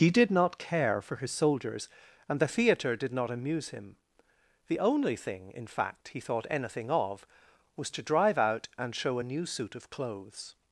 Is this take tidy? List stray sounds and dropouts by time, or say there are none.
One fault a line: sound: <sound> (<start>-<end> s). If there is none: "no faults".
no faults